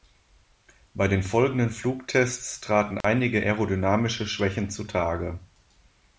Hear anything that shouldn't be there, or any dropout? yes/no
yes